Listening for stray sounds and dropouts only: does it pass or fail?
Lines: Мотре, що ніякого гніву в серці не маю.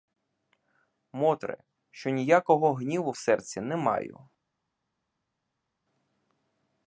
pass